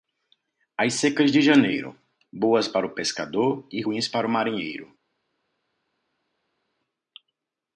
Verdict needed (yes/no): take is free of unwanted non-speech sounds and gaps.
yes